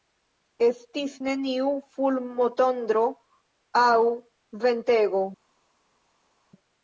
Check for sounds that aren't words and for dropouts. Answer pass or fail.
pass